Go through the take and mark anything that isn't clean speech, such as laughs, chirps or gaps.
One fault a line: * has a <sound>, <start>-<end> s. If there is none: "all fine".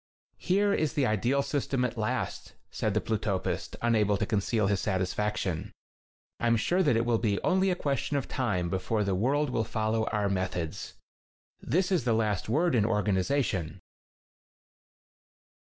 all fine